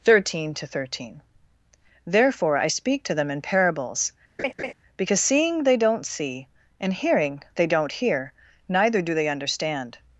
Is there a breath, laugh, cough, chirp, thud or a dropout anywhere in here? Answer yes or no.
yes